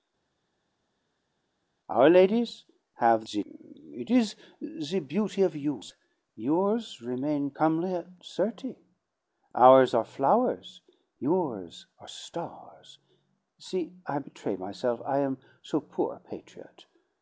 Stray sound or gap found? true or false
false